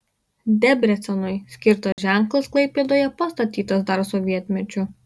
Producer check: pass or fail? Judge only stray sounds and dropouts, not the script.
fail